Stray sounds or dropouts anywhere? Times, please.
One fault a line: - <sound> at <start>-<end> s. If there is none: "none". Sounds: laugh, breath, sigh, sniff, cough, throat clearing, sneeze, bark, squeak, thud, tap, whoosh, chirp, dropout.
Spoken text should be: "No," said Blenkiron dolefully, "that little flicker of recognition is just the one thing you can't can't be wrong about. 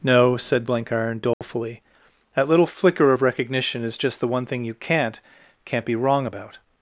- dropout at 1.3-1.4 s